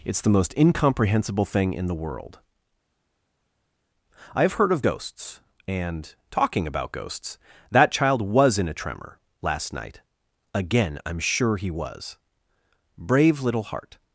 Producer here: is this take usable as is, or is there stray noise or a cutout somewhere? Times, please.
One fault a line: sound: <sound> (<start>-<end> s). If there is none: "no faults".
no faults